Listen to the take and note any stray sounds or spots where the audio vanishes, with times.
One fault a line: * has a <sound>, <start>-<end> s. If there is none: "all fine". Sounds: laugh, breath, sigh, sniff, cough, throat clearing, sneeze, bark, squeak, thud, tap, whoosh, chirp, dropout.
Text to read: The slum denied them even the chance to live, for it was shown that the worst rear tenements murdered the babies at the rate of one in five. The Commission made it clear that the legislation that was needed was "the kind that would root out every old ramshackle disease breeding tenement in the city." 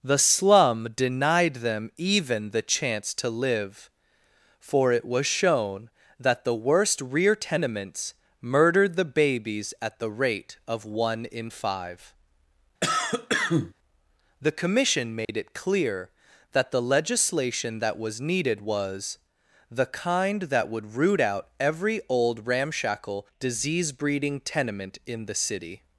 * has a cough, 12.8-13.7 s
* has a dropout, 15.2-15.3 s